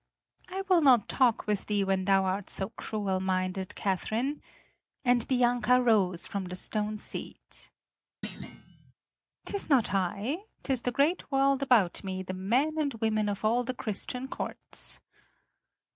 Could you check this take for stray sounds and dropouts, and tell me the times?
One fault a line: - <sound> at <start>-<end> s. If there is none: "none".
- thud at 8.2-8.9 s